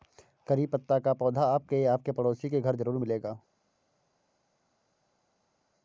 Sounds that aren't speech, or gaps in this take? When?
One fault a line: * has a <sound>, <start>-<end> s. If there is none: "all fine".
all fine